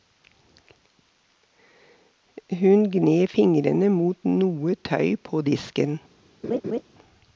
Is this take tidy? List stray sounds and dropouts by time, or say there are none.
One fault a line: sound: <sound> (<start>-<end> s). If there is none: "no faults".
sound: laugh (6.4-6.8 s)